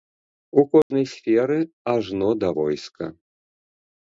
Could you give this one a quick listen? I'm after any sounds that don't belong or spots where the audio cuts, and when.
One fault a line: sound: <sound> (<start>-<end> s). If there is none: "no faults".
sound: dropout (0.8-0.9 s)